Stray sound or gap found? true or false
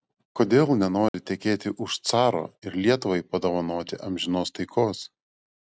true